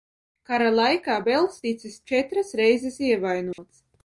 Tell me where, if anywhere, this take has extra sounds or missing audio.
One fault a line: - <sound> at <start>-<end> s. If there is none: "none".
- dropout at 3.5-3.6 s